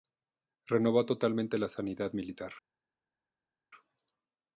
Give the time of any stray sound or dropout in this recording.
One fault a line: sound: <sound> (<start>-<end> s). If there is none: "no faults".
no faults